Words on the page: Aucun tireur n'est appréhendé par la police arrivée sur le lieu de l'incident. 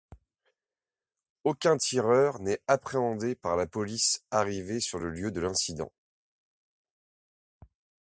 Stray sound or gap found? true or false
false